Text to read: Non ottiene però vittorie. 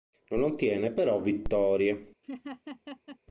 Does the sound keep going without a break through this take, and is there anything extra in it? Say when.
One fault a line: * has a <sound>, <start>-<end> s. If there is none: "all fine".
* has a laugh, 2.2-3.2 s